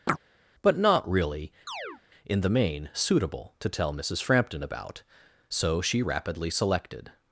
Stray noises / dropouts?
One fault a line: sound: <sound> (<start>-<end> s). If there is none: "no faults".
sound: chirp (0.1-0.2 s)
sound: chirp (1.7-2.0 s)